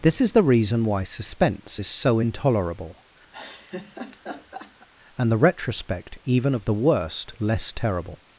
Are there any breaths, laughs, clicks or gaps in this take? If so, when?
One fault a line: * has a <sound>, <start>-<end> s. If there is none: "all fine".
* has a laugh, 3.3-4.9 s